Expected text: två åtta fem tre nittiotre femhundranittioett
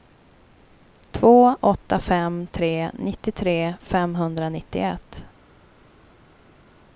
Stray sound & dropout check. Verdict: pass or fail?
pass